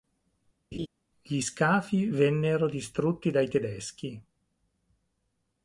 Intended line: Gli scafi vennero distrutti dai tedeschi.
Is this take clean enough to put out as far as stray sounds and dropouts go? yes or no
no